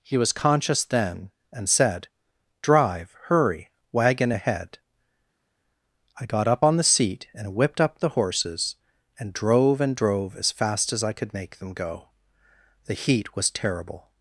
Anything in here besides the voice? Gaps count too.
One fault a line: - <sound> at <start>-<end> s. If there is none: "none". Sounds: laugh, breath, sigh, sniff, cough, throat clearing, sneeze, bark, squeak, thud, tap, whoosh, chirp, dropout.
none